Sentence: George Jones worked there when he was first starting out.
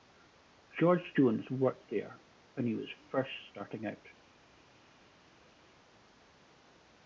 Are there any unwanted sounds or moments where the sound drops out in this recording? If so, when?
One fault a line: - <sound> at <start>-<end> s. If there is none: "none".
none